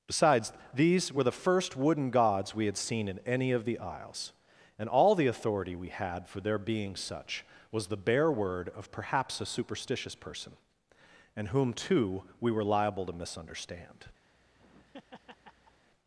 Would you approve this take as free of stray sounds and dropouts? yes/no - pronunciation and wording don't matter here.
no